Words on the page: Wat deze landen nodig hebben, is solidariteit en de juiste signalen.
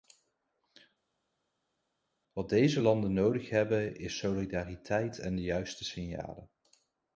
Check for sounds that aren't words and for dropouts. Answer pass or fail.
pass